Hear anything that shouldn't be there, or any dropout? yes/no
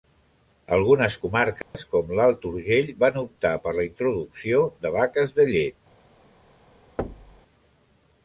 yes